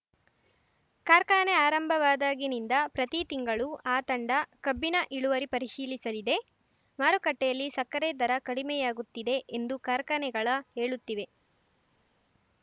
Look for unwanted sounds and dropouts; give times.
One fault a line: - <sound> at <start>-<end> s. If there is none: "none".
none